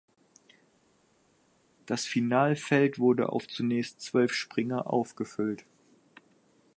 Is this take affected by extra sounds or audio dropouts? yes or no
no